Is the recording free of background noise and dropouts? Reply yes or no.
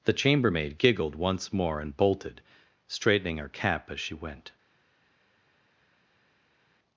yes